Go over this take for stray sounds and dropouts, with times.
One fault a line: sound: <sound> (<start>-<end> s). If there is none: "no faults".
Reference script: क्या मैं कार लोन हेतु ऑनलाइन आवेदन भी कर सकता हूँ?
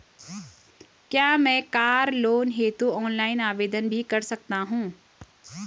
no faults